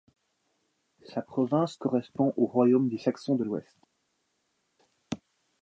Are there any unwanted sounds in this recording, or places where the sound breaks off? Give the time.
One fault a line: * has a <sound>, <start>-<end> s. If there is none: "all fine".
all fine